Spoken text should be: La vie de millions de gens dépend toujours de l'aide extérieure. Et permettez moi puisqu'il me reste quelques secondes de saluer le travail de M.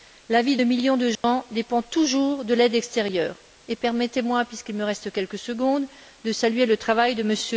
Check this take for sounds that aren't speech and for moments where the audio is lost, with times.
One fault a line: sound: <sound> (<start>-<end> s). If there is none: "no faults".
sound: dropout (1.2-1.2 s)